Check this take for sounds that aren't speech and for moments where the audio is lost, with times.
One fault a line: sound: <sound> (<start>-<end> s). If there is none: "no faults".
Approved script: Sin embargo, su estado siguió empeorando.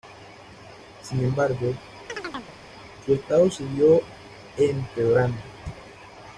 sound: chirp (2.1-2.6 s)